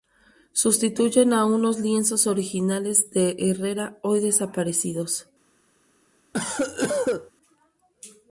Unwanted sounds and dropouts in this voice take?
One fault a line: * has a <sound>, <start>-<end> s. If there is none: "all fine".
* has a cough, 6.3-7.3 s